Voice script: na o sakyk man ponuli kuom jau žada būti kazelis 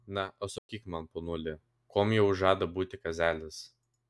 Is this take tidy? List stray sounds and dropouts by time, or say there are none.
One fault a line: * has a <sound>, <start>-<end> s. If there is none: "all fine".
* has a dropout, 0.6-0.7 s